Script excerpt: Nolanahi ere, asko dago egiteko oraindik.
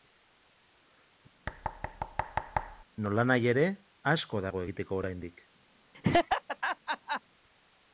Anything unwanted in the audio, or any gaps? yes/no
yes